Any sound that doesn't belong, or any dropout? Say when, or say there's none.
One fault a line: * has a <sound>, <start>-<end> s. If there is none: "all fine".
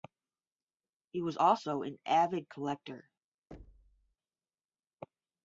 * has a thud, 3.5-4.2 s